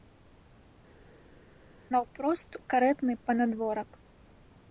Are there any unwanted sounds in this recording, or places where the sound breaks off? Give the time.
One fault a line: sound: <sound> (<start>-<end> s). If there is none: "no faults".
no faults